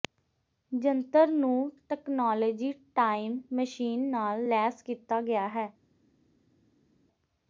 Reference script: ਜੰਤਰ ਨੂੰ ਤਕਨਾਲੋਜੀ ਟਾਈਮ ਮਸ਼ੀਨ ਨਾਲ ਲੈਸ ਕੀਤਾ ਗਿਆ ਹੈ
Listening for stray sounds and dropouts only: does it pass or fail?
pass